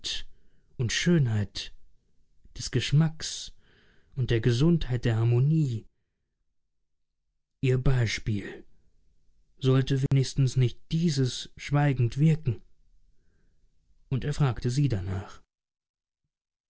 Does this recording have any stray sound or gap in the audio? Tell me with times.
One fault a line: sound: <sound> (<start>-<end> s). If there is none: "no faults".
sound: dropout (10.1-10.1 s)